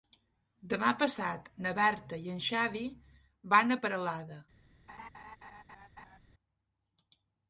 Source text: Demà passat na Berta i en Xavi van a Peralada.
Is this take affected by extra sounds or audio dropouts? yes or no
yes